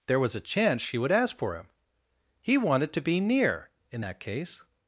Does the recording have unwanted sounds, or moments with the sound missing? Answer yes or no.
no